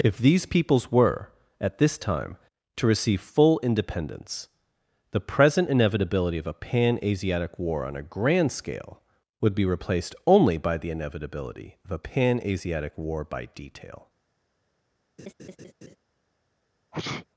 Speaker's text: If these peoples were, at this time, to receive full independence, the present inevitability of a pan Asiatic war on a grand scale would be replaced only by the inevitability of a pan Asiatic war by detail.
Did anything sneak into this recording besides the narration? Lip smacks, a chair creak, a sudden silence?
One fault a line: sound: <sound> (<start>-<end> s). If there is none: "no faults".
sound: laugh (15.2-16.0 s)
sound: sneeze (16.9-17.3 s)